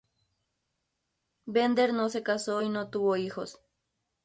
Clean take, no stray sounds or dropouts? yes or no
yes